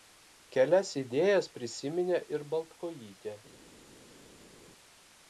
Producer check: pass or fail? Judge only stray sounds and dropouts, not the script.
pass